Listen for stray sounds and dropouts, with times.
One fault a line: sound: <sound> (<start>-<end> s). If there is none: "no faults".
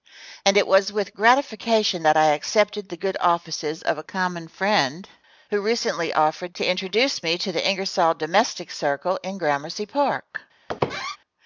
sound: squeak (10.7-11.2 s)